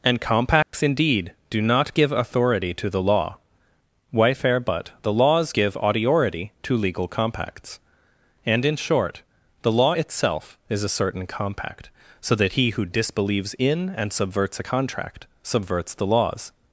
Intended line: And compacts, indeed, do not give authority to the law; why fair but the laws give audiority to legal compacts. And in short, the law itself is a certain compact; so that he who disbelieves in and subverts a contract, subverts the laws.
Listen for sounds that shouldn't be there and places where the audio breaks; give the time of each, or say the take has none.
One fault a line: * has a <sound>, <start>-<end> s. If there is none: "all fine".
* has a dropout, 0.6-0.7 s